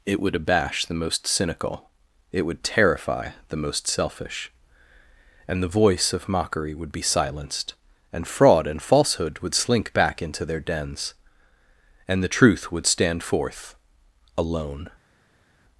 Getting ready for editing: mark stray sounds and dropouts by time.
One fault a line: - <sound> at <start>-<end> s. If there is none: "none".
none